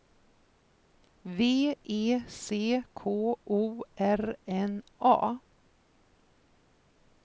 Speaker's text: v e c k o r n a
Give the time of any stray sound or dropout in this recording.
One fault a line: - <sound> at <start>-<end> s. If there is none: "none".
none